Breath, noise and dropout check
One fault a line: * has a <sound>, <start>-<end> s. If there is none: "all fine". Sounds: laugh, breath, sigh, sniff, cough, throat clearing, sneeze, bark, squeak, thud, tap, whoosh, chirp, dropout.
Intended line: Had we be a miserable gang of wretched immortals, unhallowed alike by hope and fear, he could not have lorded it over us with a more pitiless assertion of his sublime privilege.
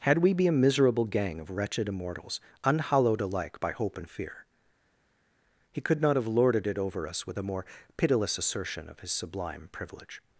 all fine